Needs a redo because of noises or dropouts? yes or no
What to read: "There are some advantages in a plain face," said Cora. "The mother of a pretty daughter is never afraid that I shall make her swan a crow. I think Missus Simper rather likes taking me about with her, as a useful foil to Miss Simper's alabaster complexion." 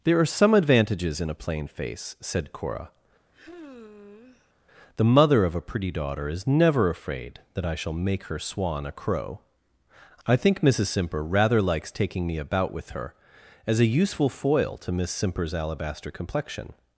yes